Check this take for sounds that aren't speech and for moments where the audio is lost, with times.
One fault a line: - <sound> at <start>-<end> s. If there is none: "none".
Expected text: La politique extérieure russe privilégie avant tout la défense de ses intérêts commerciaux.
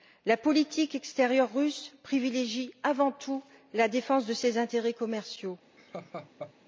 - laugh at 5.8-6.5 s